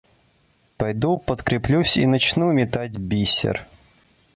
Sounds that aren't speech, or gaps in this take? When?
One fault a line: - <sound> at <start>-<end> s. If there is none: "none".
none